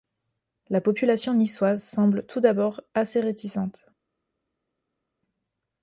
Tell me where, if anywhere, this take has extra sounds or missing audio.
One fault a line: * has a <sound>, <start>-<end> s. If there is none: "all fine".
all fine